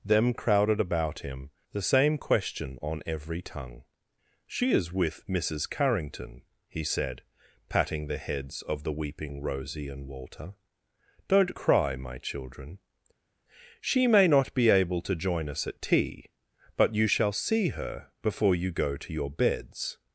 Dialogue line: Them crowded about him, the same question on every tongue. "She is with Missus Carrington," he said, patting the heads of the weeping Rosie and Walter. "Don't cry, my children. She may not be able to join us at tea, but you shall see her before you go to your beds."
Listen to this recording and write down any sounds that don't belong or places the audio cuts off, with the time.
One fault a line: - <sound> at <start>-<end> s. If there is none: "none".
none